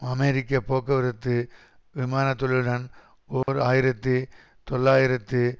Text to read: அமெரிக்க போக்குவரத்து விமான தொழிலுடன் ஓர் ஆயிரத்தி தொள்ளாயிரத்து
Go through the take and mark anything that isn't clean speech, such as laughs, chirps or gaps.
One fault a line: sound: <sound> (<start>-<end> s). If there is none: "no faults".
sound: dropout (3.4-3.5 s)